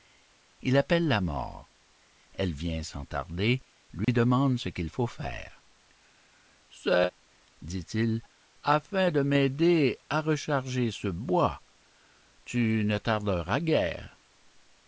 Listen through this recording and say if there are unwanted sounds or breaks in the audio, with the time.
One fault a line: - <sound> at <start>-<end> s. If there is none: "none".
- dropout at 4.0-4.1 s